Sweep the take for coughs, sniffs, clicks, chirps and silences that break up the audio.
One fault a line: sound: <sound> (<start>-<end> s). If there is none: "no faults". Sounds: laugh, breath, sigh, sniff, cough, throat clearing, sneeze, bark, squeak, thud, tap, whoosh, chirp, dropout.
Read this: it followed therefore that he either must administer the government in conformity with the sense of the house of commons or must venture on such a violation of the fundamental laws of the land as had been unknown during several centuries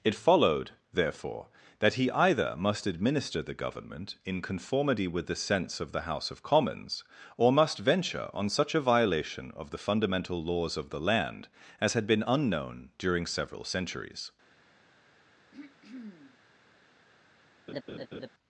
sound: throat clearing (15.5-16.4 s)
sound: laugh (17.7-18.3 s)